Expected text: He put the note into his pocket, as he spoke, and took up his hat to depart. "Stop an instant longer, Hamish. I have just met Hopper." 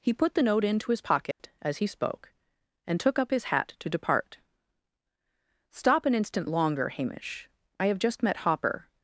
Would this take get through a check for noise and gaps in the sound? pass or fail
fail